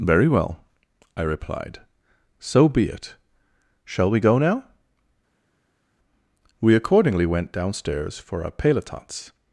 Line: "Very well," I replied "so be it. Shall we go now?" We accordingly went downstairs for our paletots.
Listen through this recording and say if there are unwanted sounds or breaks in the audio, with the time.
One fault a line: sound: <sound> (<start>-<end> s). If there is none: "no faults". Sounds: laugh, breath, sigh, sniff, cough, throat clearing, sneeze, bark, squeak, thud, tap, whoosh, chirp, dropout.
no faults